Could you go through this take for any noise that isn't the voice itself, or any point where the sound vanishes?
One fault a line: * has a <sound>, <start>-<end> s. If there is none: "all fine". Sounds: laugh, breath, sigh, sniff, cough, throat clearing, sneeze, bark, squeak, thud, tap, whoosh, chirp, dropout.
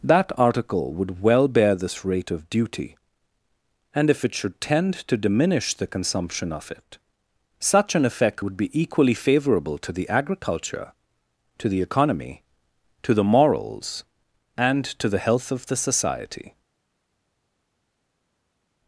all fine